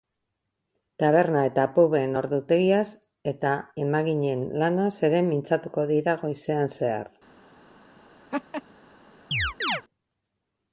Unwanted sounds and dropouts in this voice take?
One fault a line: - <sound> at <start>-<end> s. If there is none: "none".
- laugh at 8.3-8.6 s
- chirp at 9.3-9.8 s